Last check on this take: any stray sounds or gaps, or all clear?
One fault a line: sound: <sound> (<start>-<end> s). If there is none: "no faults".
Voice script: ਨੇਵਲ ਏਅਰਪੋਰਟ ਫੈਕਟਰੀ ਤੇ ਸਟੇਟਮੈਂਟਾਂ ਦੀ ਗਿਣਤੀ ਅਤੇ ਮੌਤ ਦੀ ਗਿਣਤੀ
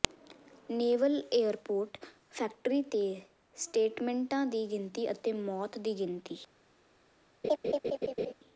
sound: laugh (7.4-8.3 s)